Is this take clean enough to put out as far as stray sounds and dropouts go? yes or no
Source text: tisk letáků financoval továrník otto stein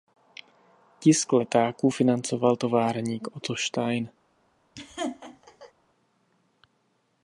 no